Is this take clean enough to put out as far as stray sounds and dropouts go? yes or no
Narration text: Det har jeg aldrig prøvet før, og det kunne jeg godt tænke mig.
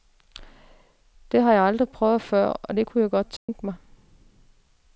no